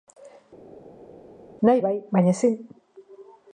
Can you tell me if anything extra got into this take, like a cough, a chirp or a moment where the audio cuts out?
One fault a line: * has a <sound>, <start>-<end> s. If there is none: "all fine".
all fine